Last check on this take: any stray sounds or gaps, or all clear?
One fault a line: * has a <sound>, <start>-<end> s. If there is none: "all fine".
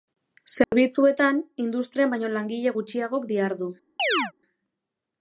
* has a dropout, 0.6-0.7 s
* has a chirp, 4.0-4.3 s